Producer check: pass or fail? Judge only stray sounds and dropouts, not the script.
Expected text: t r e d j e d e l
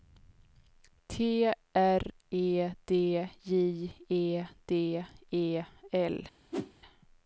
fail